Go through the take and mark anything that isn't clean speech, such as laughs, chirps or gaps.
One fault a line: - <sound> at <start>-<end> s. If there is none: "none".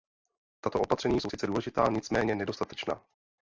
none